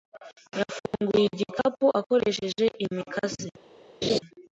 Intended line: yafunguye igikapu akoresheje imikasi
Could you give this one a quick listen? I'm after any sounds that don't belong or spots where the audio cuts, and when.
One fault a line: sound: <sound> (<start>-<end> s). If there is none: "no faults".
sound: dropout (0.9-0.9 s)
sound: laugh (4.0-4.2 s)